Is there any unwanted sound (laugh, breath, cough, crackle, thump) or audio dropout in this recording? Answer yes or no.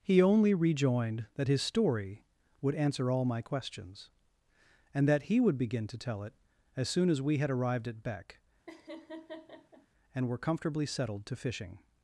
yes